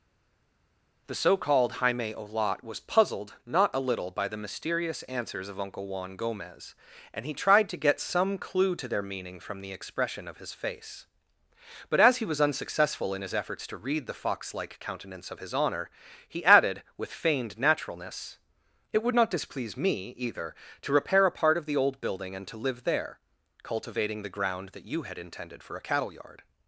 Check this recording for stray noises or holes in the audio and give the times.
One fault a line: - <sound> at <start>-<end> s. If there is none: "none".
none